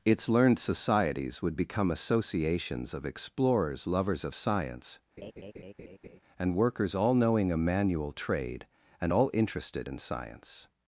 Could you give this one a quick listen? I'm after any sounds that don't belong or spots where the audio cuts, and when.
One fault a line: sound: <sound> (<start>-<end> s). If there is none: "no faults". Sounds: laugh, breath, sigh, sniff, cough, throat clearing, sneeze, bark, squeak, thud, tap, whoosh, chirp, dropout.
sound: laugh (5.2-6.2 s)